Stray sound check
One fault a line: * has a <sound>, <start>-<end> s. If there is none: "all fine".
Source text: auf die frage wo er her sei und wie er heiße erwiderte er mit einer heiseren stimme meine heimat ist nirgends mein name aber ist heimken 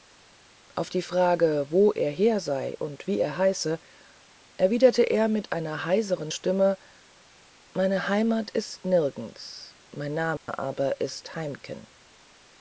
* has a dropout, 10.4-10.5 s